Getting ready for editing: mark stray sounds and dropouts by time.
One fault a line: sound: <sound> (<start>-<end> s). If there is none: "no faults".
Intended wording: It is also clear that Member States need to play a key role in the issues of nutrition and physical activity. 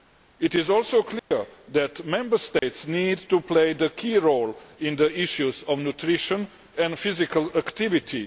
sound: dropout (1.2-1.3 s)
sound: dropout (2.6-2.6 s)